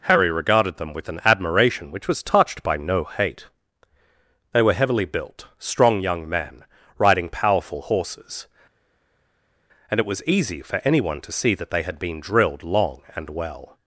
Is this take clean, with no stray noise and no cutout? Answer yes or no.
yes